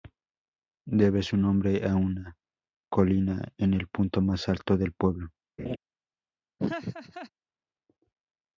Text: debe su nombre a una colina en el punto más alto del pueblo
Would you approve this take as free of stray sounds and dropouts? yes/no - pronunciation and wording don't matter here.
no